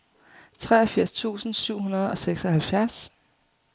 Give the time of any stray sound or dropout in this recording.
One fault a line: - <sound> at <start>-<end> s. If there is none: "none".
none